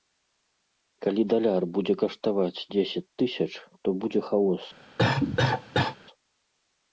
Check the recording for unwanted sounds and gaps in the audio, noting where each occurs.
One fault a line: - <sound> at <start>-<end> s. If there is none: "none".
- cough at 5.0-6.0 s